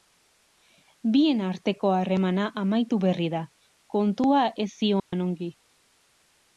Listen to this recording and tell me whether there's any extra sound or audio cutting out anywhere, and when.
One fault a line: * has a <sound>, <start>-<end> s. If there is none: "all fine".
* has a dropout, 5.0-5.1 s